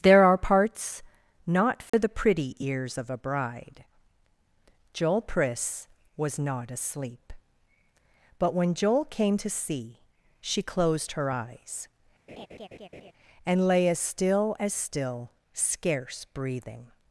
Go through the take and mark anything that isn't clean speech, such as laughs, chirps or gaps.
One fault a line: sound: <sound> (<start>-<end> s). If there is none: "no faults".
sound: dropout (1.9-1.9 s)
sound: laugh (12.3-13.1 s)